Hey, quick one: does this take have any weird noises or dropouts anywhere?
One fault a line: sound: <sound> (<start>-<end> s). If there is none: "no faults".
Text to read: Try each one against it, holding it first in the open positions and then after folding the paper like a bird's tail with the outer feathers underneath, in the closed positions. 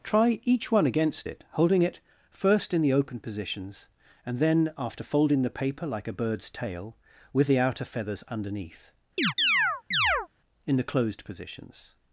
sound: chirp (9.2-10.3 s)